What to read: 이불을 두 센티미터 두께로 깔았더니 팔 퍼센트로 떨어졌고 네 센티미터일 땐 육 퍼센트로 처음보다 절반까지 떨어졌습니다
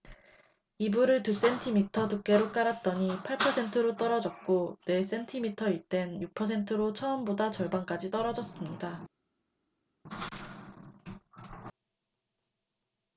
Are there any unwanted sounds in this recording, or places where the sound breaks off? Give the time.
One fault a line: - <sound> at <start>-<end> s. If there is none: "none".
none